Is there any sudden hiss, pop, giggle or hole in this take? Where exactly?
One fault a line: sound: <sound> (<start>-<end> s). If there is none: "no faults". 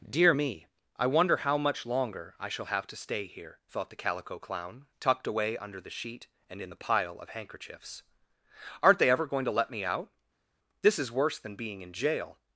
no faults